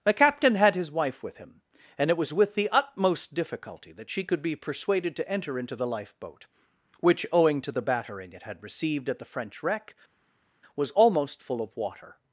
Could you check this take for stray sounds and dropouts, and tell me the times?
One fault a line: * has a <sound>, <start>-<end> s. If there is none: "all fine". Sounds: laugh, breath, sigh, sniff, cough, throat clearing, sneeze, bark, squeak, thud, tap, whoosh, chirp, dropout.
all fine